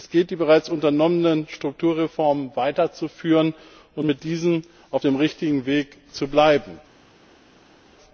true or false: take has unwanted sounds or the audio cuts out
false